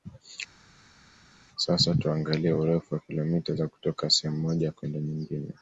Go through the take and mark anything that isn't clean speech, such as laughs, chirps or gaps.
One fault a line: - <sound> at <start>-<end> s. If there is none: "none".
none